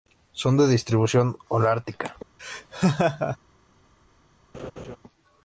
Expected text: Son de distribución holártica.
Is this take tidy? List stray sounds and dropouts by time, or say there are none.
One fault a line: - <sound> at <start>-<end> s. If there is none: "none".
- laugh at 2.4-3.4 s
- laugh at 4.5-5.0 s